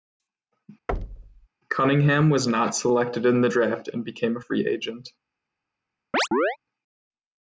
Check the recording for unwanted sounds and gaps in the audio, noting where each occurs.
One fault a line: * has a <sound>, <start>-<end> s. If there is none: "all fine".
* has a thud, 0.9-1.5 s
* has a chirp, 6.1-6.6 s